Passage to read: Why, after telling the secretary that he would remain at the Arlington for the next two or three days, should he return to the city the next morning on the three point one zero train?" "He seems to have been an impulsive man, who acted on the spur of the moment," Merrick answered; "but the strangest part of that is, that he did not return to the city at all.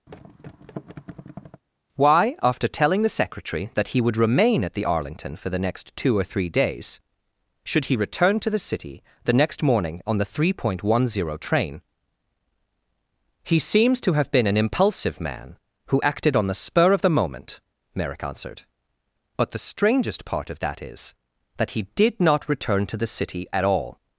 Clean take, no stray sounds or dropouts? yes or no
no